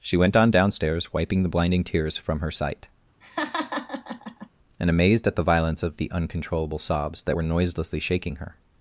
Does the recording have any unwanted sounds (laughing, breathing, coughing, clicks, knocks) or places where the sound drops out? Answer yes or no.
yes